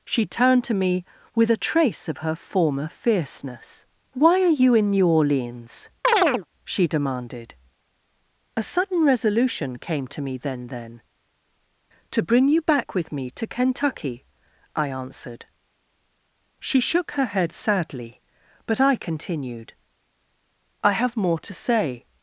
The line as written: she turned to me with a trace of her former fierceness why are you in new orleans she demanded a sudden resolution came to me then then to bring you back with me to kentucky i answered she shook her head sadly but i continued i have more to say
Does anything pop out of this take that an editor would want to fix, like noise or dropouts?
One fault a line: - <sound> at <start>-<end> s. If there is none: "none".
- chirp at 6.0-6.5 s